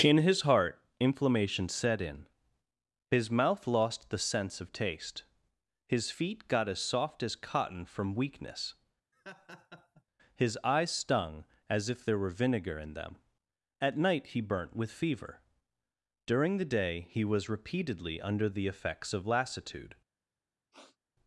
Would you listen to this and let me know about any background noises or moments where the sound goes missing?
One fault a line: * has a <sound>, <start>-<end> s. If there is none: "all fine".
* has a laugh, 9.1-10.0 s
* has a sniff, 20.7-21.0 s